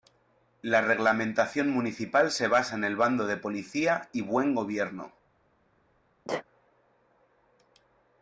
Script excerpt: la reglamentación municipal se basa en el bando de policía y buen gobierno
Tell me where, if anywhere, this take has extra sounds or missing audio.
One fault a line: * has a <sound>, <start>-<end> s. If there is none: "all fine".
* has a sneeze, 6.2-6.4 s